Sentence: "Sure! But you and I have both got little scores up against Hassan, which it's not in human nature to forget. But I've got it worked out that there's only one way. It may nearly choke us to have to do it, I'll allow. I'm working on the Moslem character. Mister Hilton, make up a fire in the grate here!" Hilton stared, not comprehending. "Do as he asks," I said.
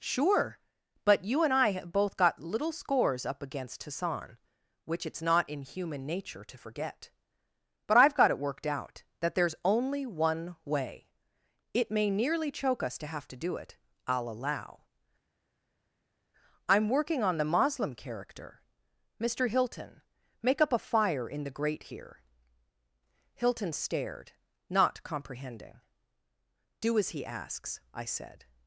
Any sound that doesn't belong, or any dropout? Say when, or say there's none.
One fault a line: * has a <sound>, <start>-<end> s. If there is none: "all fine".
all fine